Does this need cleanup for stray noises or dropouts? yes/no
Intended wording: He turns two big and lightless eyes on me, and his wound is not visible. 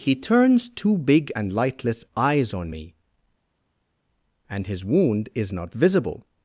no